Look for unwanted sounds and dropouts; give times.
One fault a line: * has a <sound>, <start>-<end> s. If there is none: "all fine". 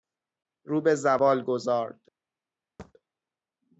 * has a thud, 2.8-2.9 s